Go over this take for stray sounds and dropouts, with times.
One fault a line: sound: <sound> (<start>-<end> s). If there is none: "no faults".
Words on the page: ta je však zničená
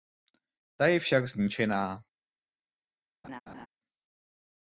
sound: laugh (3.2-3.7 s)